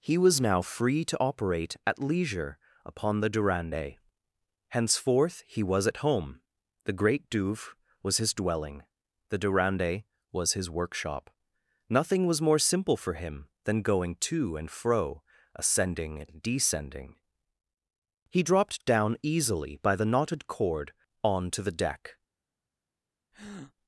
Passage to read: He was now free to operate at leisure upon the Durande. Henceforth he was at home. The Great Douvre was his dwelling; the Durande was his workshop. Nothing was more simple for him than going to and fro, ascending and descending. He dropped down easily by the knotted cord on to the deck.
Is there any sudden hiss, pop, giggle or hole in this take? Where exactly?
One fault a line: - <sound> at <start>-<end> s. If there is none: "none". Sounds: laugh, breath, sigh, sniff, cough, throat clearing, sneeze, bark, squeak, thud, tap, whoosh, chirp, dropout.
- breath at 23.3-23.7 s